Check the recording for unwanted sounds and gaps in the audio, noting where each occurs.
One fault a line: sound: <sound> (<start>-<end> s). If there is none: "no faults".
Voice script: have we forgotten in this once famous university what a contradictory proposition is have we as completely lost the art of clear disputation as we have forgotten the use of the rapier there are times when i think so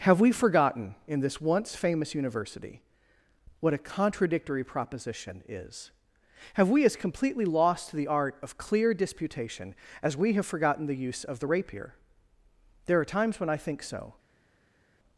no faults